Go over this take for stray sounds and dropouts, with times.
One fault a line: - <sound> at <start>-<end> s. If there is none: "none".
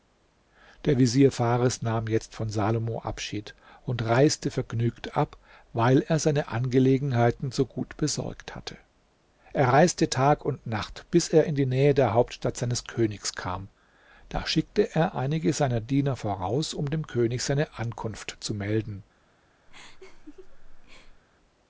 - laugh at 19.7-21.2 s